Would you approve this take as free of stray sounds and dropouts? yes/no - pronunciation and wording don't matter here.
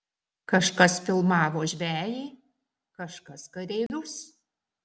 no